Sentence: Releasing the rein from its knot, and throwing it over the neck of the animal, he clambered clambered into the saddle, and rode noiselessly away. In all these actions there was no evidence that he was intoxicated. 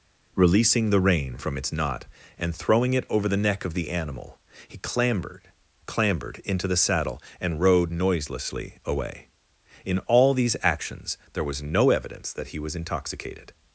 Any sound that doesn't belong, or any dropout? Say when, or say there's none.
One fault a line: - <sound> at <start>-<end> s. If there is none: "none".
none